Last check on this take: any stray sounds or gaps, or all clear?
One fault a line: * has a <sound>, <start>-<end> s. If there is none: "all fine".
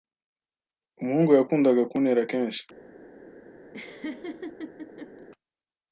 * has a laugh, 3.7-5.3 s